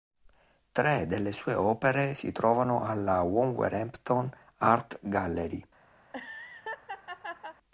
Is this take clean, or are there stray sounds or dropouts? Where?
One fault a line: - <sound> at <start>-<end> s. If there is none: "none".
- laugh at 6.0-7.6 s